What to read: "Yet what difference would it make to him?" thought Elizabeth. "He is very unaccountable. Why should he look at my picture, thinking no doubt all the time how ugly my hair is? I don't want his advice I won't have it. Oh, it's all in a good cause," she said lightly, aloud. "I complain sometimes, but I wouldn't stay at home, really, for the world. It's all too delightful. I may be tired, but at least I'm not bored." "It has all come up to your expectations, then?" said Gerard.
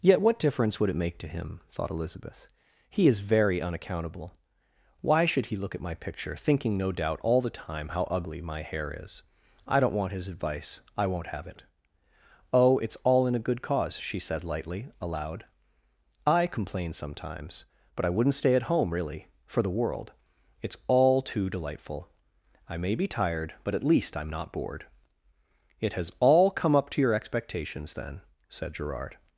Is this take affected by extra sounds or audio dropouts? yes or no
no